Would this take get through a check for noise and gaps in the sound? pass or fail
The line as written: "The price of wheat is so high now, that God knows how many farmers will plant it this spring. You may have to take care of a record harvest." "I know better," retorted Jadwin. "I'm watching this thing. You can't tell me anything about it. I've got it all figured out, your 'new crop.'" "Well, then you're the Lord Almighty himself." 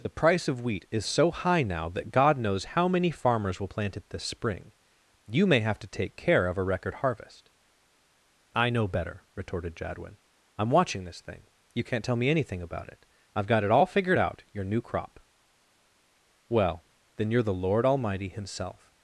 pass